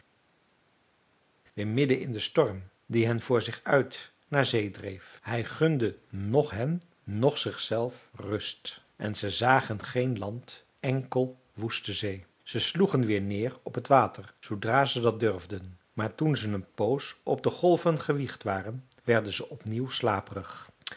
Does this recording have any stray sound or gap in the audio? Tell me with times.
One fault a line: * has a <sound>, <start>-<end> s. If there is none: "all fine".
all fine